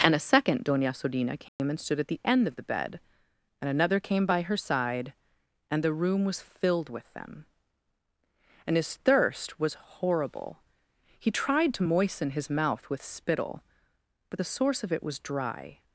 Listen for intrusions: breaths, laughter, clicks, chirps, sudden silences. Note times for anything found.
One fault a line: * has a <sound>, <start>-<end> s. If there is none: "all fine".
* has a dropout, 1.5-1.6 s